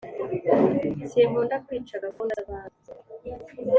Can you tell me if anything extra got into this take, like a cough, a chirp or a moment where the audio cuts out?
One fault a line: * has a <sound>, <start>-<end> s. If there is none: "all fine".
* has a dropout, 2.1-2.2 s